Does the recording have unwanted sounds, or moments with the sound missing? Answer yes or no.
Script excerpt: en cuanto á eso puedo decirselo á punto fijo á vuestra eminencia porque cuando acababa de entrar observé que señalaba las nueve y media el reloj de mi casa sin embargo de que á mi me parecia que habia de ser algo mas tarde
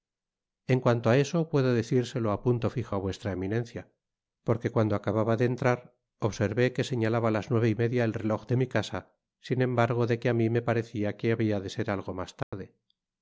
yes